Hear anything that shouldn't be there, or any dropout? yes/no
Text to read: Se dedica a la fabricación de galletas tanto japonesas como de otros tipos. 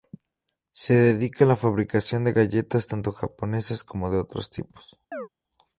yes